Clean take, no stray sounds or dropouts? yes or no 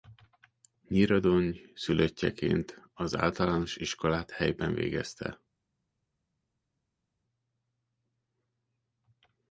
yes